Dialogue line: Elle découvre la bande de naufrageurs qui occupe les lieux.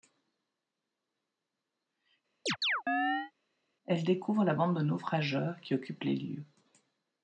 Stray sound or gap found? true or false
true